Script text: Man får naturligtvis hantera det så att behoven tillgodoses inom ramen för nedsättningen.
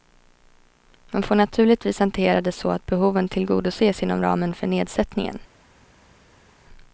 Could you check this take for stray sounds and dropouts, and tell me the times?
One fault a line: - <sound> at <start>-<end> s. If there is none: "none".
none